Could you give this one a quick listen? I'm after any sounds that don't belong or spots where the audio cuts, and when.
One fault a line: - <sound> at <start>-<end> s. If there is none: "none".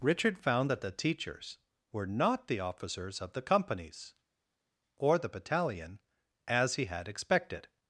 none